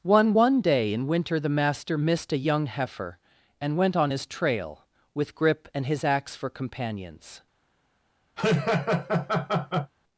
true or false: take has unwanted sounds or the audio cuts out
true